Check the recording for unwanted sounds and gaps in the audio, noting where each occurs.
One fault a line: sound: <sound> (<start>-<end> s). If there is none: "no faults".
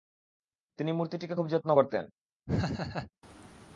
sound: laugh (2.5-3.1 s)